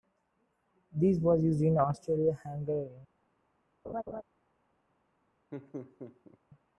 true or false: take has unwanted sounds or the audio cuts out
true